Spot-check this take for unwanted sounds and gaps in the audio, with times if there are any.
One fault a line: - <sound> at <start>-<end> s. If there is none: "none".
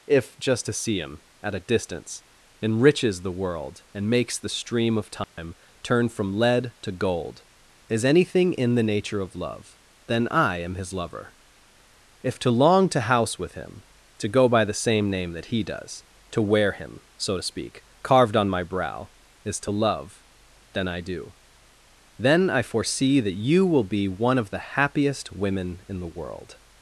- dropout at 5.2-5.4 s